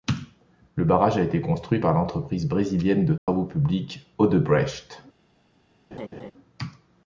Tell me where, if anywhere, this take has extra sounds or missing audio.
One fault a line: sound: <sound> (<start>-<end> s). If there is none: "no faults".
sound: dropout (3.2-3.3 s)
sound: laugh (5.9-6.3 s)